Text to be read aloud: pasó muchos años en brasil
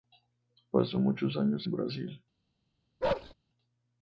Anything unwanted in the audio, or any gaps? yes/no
yes